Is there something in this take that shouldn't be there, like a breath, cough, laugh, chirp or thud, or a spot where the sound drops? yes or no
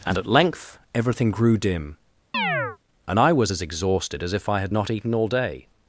yes